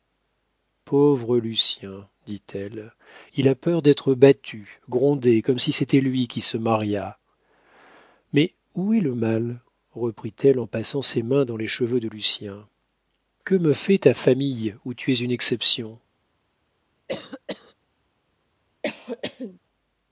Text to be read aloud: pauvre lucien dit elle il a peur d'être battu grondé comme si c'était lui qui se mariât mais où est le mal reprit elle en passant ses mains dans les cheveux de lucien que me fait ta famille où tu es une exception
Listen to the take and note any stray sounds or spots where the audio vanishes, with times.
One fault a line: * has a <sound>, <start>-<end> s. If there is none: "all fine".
* has a cough, 17.1-17.7 s
* has a cough, 18.8-19.6 s